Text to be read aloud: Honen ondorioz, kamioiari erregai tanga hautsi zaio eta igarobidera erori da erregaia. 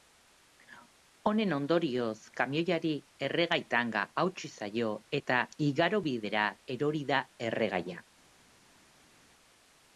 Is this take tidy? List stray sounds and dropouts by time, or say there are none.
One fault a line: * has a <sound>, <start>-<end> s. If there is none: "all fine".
all fine